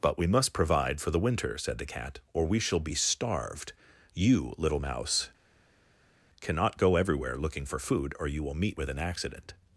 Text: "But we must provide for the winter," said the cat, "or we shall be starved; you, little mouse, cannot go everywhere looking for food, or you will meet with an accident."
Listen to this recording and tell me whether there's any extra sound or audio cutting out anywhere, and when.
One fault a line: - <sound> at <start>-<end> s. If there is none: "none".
none